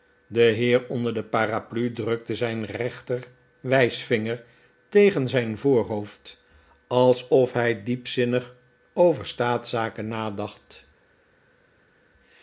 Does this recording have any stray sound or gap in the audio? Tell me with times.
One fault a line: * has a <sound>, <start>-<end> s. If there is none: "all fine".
all fine